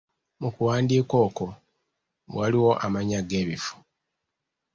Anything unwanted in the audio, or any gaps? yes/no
no